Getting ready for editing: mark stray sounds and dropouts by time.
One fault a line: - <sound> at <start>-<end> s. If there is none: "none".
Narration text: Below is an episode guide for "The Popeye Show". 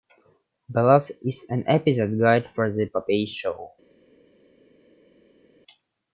none